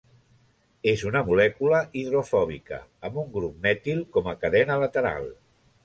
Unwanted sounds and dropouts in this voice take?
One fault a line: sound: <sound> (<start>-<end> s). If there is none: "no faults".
no faults